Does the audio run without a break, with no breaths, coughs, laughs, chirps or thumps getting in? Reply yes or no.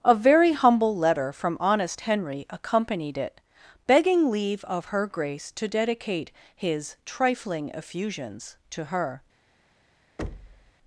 no